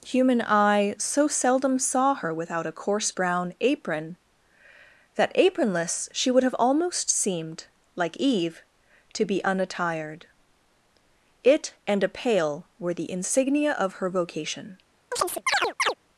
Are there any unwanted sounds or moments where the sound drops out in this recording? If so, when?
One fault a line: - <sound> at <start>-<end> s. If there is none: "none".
- chirp at 15.1-15.9 s